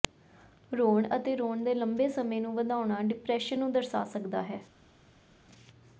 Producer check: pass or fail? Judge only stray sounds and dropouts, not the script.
pass